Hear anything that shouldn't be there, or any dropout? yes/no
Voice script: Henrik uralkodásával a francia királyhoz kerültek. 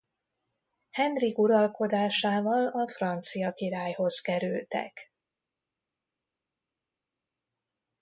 no